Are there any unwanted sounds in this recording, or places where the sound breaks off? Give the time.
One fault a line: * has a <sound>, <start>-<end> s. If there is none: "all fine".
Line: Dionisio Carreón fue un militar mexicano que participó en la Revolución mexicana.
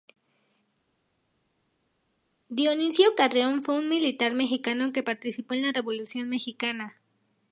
all fine